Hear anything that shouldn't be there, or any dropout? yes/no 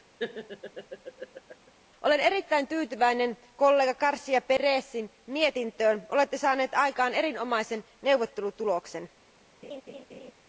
yes